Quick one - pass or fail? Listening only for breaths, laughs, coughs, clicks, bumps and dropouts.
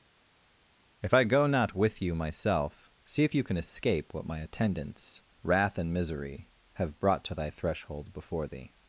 pass